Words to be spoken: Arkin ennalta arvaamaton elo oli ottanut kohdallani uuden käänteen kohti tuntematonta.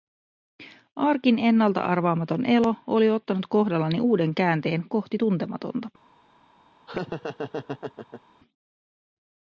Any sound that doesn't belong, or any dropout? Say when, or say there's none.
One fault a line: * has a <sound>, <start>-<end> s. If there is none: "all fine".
* has a laugh, 6.9-8.2 s